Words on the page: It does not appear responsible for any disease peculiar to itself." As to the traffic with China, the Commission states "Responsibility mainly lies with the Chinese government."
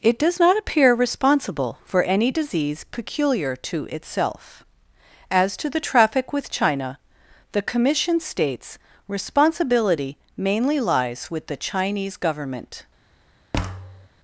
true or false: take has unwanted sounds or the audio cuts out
true